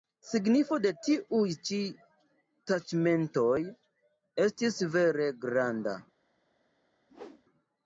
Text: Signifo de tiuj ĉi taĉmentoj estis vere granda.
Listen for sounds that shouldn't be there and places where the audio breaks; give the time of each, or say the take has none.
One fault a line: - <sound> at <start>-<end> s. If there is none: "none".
- whoosh at 7.1-7.4 s